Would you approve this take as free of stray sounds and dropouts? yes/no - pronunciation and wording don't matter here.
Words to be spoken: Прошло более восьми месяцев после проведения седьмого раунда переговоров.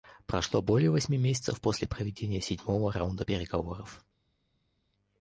yes